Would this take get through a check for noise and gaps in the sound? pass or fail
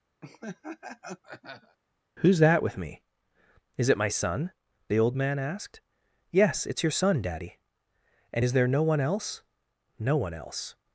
fail